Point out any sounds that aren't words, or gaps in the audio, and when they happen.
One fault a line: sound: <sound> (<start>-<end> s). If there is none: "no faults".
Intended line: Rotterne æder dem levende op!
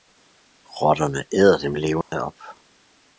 sound: dropout (2.0-2.1 s)